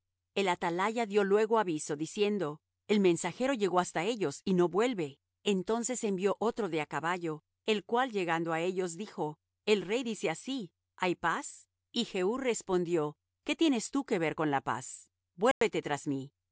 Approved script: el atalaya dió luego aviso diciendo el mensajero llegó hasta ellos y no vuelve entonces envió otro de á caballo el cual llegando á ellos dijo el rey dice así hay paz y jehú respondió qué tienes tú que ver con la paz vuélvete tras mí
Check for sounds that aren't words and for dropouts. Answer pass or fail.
fail